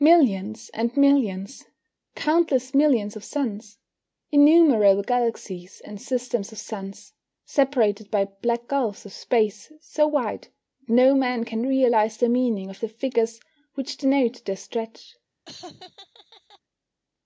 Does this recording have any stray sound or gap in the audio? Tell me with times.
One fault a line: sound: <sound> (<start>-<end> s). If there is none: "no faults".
sound: laugh (15.5-16.6 s)